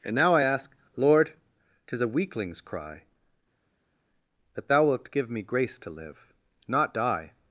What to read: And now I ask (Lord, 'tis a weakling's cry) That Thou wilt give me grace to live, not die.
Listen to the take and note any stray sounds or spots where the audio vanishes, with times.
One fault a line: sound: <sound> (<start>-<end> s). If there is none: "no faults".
no faults